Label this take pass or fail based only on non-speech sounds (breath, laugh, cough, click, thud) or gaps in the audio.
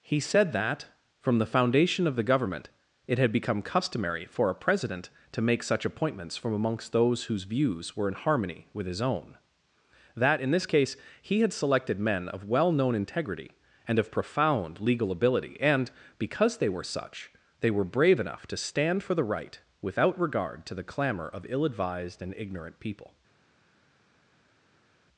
pass